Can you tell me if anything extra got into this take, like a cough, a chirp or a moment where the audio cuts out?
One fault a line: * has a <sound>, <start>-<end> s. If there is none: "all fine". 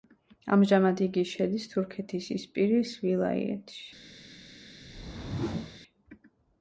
* has a whoosh, 4.8-5.8 s